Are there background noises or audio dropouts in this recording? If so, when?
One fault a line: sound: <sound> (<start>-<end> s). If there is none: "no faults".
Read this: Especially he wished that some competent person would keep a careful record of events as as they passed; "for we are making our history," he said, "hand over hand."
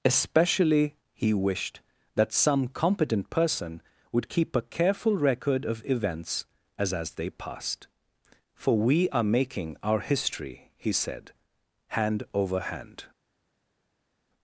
no faults